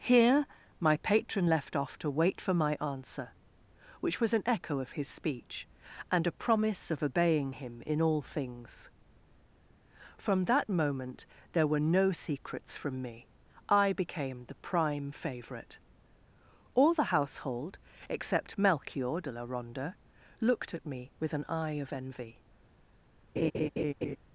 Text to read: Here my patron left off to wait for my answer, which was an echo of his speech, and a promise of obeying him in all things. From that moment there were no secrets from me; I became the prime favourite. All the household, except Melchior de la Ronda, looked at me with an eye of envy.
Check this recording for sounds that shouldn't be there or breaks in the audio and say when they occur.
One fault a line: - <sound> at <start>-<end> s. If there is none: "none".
- laugh at 23.4-24.2 s